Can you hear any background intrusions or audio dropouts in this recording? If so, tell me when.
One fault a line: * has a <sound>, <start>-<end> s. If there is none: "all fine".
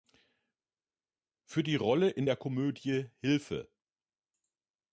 all fine